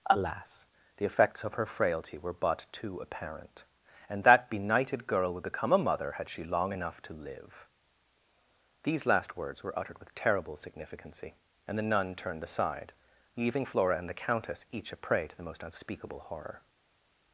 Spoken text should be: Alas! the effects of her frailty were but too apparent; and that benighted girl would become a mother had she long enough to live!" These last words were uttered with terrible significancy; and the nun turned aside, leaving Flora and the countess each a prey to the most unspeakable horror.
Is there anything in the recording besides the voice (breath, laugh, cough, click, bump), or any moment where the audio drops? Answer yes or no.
no